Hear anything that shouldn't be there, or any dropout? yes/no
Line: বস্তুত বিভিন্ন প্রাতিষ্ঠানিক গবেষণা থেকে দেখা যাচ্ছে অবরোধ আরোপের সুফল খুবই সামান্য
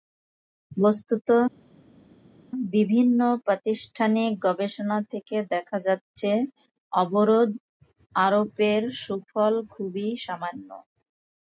no